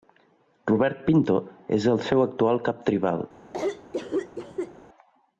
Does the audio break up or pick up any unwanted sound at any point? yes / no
yes